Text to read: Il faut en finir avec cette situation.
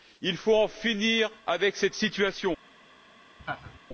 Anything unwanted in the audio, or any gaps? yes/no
yes